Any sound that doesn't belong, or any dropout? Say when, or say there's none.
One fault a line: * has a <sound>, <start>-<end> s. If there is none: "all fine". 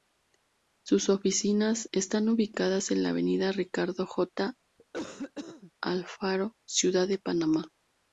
* has a cough, 4.8-5.7 s